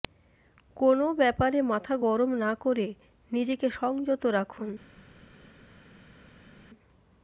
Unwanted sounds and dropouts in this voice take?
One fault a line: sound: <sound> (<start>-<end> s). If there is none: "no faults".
no faults